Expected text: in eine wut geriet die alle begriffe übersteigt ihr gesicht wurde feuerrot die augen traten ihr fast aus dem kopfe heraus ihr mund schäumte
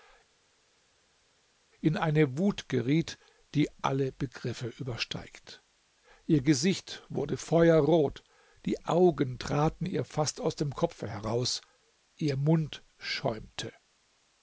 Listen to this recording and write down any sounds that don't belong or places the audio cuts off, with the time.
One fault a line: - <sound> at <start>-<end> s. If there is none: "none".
none